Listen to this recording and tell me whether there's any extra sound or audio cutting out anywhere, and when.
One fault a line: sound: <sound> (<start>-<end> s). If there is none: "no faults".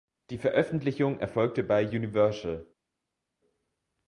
no faults